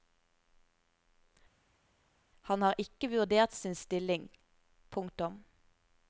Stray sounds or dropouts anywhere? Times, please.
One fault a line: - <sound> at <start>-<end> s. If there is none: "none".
none